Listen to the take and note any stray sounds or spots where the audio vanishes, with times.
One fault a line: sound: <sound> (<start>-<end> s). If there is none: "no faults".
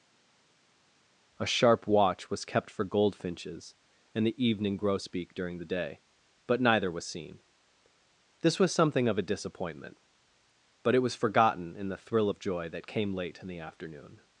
no faults